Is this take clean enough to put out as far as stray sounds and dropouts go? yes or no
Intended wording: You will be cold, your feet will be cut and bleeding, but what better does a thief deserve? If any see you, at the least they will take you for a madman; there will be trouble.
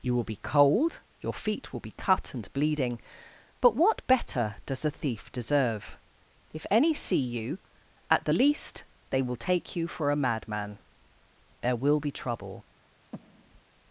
no